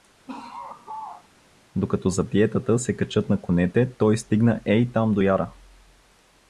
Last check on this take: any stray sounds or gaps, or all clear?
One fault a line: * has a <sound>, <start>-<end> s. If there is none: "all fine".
* has a laugh, 0.3-1.3 s